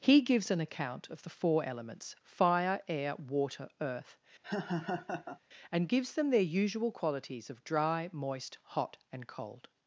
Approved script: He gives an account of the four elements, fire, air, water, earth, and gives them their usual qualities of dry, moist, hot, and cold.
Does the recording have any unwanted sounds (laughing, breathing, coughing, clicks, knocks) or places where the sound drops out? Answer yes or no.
yes